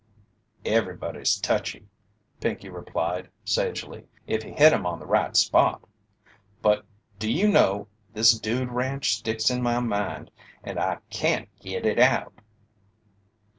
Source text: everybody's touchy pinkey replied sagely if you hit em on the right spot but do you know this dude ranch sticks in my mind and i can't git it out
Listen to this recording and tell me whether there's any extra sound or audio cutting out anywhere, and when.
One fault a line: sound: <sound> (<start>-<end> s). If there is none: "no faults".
no faults